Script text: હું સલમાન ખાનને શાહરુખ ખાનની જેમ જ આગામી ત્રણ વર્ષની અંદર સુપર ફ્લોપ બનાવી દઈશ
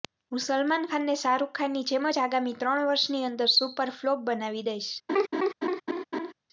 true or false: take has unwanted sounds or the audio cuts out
true